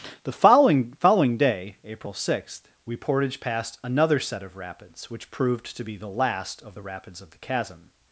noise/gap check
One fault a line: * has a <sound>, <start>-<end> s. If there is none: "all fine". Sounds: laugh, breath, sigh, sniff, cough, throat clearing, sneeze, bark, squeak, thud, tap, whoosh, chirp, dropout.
all fine